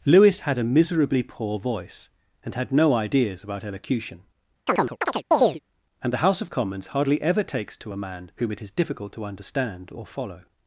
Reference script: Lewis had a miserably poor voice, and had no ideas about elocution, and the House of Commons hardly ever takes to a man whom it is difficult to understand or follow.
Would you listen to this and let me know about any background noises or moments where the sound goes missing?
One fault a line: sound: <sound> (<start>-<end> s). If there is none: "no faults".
sound: chirp (4.7-5.6 s)